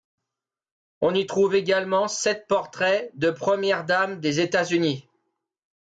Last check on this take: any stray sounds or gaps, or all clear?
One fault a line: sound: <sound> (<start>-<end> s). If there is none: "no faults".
no faults